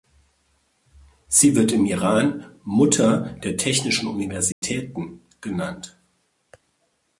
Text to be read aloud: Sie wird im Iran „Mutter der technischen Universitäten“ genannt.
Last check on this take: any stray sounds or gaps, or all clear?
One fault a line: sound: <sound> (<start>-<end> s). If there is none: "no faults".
sound: dropout (4.5-4.6 s)